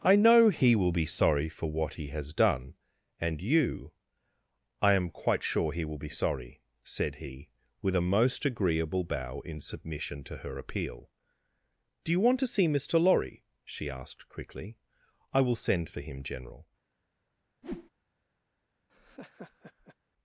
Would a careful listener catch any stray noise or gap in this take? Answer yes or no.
yes